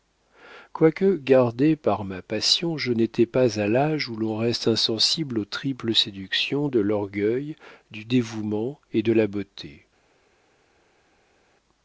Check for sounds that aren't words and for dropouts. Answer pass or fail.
pass